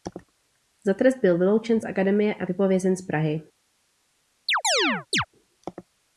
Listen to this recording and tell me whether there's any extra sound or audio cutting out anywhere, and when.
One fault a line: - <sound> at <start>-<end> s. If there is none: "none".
- chirp at 4.5-5.3 s